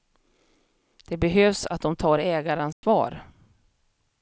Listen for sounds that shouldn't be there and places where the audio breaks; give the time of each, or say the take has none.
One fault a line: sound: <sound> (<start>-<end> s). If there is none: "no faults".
sound: dropout (2.7-2.8 s)